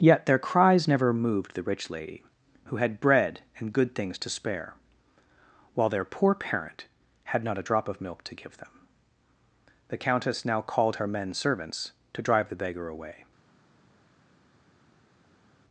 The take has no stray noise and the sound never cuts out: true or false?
true